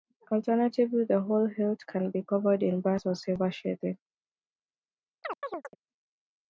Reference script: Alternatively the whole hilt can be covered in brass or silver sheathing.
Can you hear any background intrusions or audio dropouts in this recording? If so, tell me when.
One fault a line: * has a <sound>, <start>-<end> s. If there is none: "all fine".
* has a chirp, 5.2-5.8 s